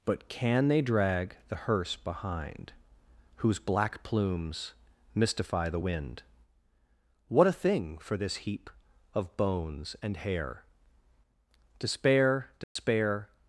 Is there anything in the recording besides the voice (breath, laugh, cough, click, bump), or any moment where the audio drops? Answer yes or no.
yes